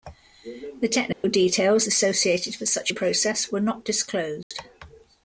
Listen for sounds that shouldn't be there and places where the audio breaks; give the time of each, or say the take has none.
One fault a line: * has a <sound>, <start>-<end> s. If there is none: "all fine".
* has a dropout, 1.1-1.2 s
* has a dropout, 4.4-4.5 s